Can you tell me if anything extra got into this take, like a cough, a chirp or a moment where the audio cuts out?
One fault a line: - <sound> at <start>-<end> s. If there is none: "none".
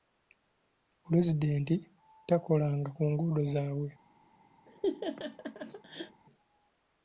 - laugh at 4.7-6.2 s